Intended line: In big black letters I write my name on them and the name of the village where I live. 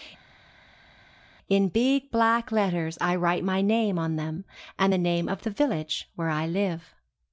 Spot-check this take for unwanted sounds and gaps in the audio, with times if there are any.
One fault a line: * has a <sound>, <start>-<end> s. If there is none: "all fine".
all fine